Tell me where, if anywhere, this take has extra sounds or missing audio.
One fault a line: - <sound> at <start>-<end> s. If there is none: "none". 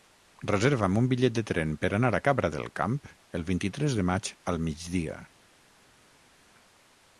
none